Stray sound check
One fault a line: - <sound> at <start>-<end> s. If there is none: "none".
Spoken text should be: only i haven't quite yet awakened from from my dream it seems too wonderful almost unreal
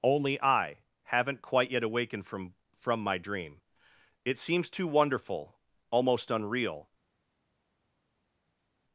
none